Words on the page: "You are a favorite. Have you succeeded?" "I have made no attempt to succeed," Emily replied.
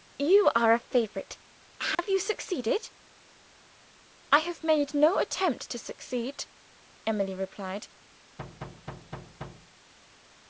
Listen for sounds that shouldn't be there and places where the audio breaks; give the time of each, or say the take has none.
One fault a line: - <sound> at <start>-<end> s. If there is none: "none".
- dropout at 1.9-2.0 s
- thud at 8.4-9.7 s